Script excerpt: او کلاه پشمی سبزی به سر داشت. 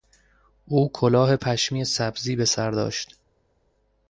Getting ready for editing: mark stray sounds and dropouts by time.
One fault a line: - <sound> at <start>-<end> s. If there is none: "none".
none